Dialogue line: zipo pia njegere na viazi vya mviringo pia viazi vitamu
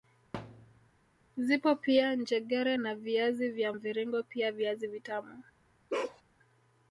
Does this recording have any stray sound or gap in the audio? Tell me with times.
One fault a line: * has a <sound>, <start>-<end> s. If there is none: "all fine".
* has a thud, 0.3-0.9 s
* has a bark, 5.9-6.2 s